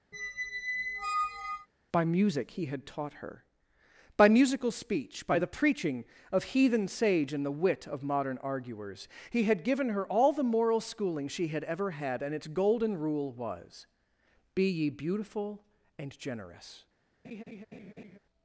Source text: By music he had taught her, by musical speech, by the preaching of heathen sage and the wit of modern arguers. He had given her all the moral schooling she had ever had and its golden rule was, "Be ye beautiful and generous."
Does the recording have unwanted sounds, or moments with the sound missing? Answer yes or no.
yes